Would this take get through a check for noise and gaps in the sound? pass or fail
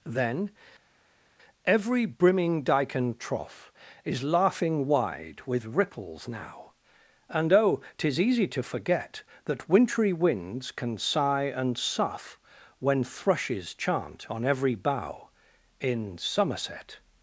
pass